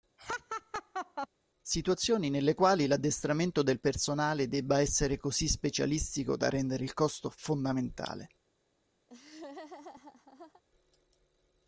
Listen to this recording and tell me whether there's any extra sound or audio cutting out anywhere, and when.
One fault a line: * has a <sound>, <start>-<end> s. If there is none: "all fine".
* has a laugh, 0.2-1.3 s
* has a laugh, 9.1-10.6 s